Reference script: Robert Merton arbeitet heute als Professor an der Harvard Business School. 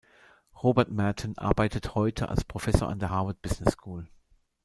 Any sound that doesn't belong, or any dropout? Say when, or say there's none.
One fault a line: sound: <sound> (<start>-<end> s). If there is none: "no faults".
no faults